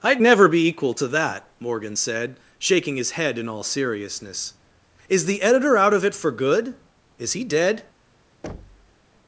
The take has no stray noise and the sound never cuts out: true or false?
false